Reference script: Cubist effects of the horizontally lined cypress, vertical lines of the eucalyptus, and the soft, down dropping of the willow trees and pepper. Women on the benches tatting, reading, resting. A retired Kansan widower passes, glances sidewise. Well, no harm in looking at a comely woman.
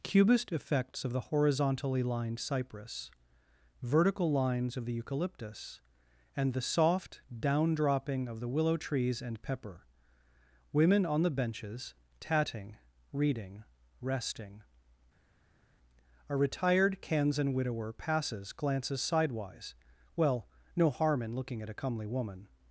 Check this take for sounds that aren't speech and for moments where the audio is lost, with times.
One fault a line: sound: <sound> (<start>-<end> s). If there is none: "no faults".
no faults